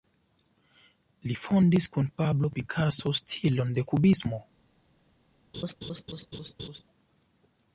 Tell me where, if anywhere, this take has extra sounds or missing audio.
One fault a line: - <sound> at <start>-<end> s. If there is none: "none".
- laugh at 5.5-6.8 s